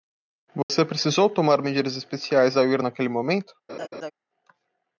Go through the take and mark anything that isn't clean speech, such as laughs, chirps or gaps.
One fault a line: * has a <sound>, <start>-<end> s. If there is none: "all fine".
* has a dropout, 0.6-0.7 s
* has a laugh, 3.7-4.1 s